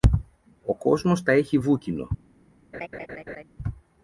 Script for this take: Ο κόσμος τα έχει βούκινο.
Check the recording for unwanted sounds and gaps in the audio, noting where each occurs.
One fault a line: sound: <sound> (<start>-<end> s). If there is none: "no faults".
sound: laugh (2.7-3.4 s)